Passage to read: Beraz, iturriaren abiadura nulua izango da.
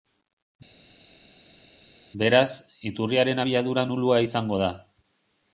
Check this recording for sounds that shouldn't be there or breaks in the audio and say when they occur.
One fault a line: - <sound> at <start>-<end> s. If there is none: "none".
none